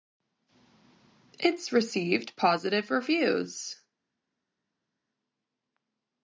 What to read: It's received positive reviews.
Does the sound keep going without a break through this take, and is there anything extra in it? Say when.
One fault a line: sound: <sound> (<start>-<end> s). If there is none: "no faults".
no faults